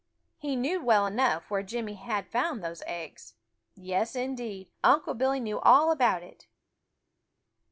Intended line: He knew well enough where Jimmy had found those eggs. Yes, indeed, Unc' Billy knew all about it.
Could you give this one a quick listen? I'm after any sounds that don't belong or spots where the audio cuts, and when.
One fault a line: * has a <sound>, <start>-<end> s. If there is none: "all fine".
all fine